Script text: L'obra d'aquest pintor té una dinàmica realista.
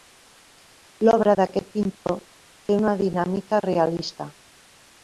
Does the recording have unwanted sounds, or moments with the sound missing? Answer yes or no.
yes